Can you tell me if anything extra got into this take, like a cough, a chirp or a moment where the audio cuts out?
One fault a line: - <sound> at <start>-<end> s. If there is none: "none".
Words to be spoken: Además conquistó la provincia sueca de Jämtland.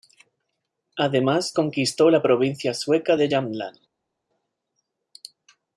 none